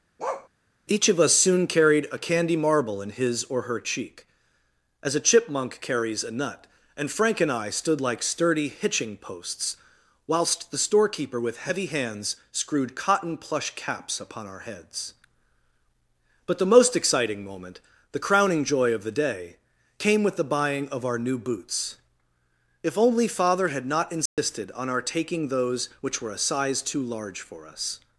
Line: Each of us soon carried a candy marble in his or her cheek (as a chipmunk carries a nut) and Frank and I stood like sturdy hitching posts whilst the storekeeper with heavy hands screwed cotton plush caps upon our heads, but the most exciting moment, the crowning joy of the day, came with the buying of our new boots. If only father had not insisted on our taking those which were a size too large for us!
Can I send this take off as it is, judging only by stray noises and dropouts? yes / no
no